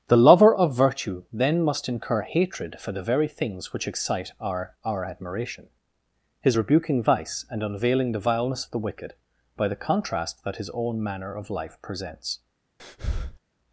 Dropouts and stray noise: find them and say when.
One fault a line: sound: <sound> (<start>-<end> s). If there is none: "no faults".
sound: breath (12.8-13.4 s)